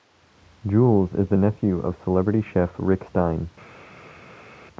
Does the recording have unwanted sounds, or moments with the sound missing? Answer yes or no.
no